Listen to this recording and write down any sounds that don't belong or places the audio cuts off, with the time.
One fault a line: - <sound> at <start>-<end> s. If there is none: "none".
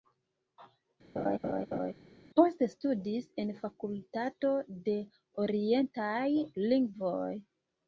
- laugh at 1.2-1.9 s